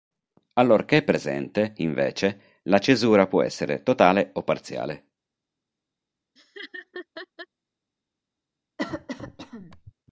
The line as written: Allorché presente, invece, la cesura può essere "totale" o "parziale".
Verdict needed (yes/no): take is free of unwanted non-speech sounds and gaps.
no